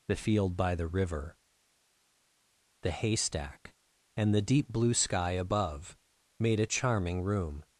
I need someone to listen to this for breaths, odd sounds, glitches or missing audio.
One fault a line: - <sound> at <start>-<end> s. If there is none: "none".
none